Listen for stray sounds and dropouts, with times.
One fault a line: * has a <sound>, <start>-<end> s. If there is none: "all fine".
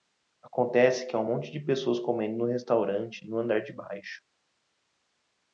all fine